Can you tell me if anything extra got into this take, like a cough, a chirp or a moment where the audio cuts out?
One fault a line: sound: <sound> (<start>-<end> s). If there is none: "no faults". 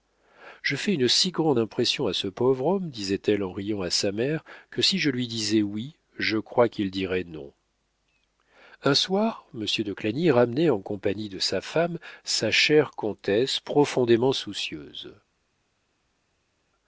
no faults